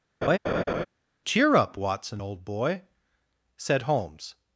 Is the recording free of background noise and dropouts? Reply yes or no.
no